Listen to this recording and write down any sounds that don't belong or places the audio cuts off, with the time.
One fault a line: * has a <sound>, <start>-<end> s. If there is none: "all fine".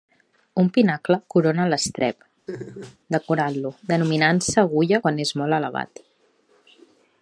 * has a laugh, 2.5-3.0 s